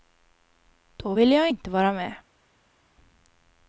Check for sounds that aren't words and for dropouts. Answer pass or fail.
pass